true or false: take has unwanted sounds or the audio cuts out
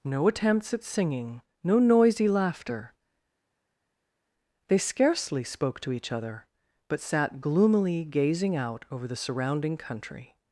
false